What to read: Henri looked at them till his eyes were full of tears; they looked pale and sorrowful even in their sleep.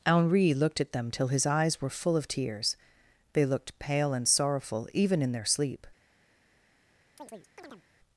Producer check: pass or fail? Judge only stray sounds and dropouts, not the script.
fail